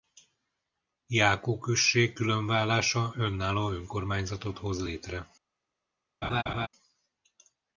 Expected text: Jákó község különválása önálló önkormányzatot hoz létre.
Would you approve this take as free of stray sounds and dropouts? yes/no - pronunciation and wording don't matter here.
no